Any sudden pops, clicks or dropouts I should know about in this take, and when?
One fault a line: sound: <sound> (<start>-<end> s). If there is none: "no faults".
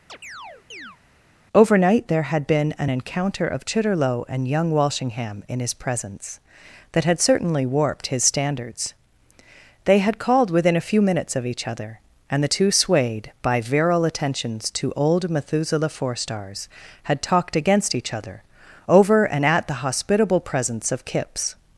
sound: chirp (0.1-1.0 s)